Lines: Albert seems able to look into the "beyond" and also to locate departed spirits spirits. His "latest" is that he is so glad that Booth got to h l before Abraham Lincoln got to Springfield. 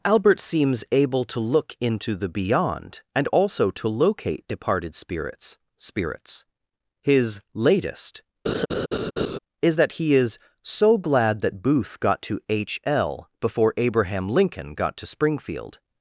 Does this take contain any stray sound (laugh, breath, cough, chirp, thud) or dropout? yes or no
yes